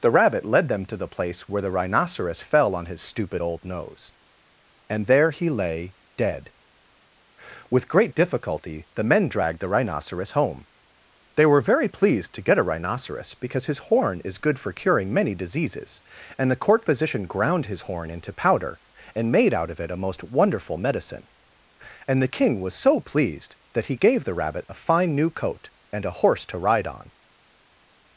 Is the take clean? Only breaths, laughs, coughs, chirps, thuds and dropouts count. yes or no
yes